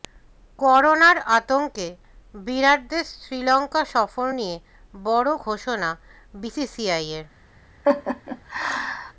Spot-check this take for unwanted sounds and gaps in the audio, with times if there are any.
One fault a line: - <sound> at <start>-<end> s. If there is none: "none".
- laugh at 7.8-9.1 s